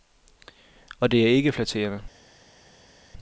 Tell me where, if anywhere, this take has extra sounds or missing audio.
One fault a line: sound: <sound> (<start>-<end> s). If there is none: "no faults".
no faults